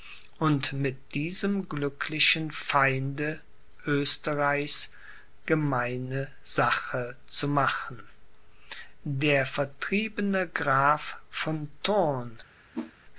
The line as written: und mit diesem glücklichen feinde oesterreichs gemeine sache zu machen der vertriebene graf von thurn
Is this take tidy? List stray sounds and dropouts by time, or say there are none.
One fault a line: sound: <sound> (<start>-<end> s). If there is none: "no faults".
sound: whoosh (12.7-12.9 s)